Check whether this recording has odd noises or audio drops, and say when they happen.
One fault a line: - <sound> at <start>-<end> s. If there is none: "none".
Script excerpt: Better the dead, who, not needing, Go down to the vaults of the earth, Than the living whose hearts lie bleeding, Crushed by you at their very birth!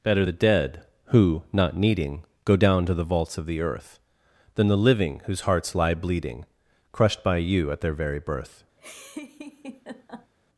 - laugh at 8.8-10.3 s